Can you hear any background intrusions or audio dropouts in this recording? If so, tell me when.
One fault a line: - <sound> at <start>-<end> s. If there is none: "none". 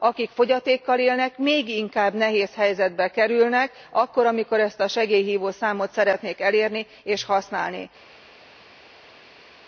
none